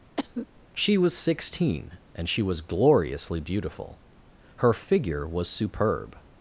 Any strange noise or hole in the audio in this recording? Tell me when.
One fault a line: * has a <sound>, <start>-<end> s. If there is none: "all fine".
* has a cough, 0.2-0.5 s